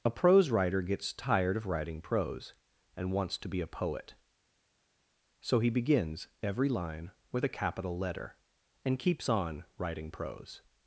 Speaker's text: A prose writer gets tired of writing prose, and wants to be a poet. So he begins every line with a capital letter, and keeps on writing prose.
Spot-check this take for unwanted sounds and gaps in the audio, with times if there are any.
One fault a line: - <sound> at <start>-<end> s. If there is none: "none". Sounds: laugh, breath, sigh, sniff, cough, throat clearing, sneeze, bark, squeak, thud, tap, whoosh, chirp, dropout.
none